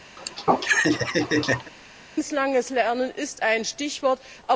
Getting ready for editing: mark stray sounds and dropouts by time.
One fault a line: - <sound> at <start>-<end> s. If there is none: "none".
- laugh at 0.2-1.7 s